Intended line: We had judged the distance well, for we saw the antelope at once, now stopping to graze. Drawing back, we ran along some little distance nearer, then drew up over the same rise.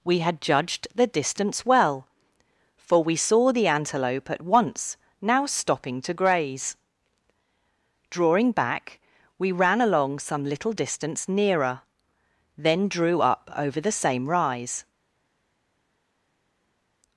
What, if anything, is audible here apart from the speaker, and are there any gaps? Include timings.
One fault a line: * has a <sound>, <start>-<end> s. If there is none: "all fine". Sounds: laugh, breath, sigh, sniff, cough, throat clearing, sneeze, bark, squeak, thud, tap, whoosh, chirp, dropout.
all fine